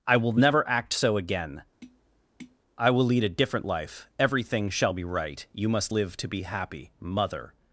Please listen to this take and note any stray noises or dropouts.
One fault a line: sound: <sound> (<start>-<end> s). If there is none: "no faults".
sound: tap (1.8-2.6 s)